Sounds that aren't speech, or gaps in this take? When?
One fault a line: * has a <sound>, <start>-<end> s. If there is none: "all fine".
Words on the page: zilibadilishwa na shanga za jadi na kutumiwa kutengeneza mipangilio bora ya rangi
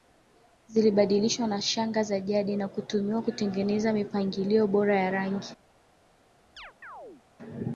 * has a chirp, 6.6-7.2 s